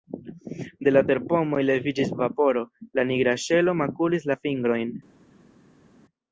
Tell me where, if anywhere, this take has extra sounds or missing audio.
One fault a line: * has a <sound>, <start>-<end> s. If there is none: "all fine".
all fine